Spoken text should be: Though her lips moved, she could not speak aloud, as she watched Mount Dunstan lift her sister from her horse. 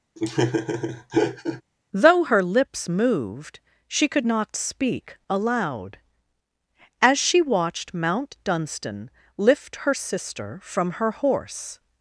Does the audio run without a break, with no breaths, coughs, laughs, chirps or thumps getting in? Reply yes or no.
no